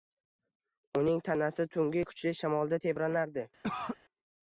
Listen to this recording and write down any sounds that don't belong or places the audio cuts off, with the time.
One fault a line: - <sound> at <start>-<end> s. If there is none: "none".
- cough at 3.6-4.0 s